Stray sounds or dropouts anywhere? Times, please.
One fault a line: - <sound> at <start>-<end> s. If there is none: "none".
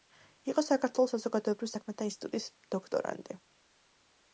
none